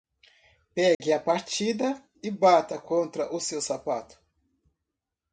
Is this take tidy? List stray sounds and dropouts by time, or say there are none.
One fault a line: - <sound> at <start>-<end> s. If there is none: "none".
- dropout at 0.9-1.0 s